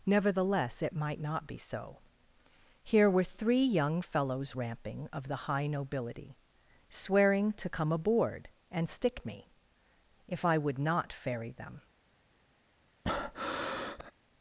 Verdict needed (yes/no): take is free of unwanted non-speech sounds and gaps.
no